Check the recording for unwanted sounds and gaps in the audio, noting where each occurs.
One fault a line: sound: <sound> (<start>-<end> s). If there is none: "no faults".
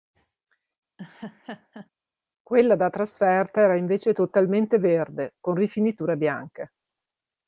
sound: laugh (1.0-1.9 s)